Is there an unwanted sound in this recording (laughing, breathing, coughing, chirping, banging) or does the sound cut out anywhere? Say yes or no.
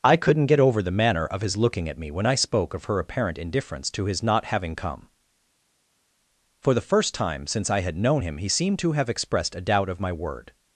no